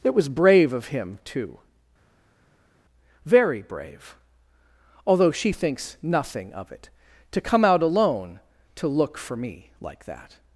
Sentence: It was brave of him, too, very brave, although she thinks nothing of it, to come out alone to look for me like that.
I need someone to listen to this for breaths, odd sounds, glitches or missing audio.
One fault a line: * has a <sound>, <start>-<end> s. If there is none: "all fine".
all fine